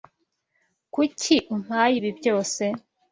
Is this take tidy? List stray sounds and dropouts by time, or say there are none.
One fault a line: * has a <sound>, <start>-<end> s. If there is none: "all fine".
all fine